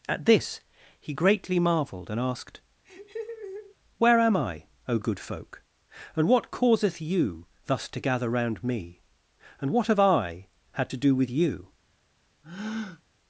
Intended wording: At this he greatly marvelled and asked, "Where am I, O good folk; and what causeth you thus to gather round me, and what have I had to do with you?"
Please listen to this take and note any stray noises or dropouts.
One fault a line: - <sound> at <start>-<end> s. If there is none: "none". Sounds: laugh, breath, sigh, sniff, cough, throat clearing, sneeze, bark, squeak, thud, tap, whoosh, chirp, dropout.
- laugh at 2.8-3.8 s
- breath at 12.4-13.0 s